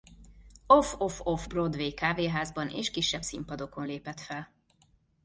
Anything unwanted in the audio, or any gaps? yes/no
no